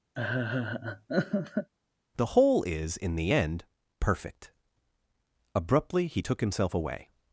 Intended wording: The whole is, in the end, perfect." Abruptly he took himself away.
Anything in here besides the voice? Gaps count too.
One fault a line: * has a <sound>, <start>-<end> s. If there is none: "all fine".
* has a laugh, 0.1-1.7 s